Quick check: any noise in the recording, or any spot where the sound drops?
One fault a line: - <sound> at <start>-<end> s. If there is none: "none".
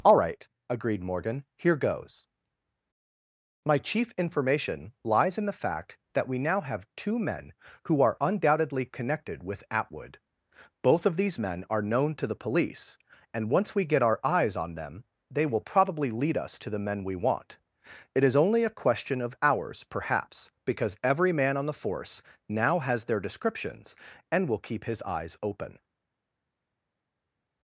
none